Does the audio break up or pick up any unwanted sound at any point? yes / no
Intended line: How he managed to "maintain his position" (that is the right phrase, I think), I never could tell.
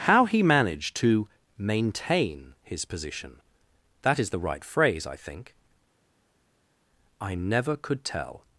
no